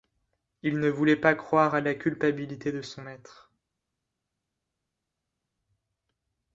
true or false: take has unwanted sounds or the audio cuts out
false